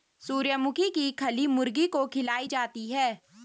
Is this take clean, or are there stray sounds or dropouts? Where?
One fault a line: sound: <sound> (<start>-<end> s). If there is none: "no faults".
no faults